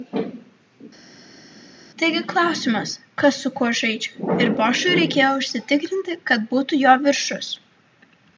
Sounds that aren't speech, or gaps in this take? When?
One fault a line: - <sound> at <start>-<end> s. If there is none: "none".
none